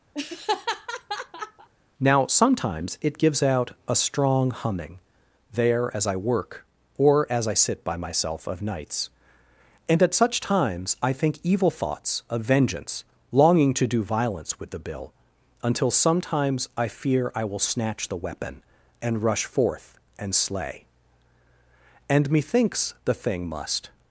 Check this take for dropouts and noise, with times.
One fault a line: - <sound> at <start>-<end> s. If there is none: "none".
- laugh at 0.1-1.7 s